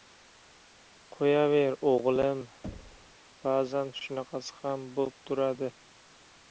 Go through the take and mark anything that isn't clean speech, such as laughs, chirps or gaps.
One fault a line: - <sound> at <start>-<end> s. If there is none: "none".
- thud at 2.6-3.2 s